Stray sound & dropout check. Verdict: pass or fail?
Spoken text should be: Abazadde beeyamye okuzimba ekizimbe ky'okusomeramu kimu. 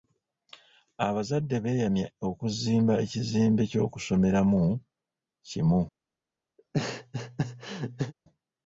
fail